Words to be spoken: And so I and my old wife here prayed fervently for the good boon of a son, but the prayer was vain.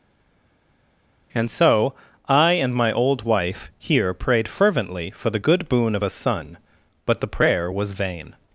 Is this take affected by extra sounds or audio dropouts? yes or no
no